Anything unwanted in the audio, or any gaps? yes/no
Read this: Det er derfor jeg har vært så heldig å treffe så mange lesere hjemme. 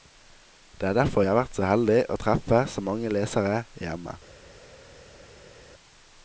no